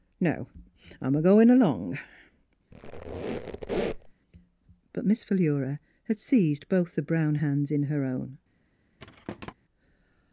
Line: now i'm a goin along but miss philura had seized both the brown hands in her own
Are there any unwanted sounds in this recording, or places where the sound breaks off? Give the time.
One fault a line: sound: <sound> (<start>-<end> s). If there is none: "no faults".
sound: squeak (2.7-4.1 s)
sound: thud (9.0-9.5 s)